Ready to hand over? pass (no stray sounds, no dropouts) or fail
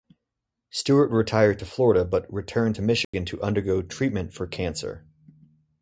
fail